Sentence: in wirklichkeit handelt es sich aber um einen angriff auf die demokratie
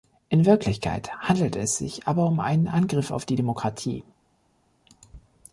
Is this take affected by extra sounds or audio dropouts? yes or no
no